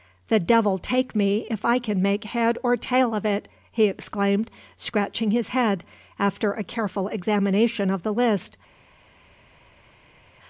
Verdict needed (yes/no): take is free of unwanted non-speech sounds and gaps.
yes